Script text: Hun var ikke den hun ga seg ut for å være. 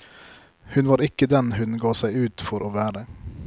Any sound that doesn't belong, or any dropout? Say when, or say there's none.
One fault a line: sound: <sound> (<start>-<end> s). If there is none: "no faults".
no faults